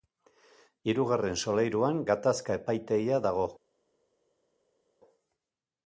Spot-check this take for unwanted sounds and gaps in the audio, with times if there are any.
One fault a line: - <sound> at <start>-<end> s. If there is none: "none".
none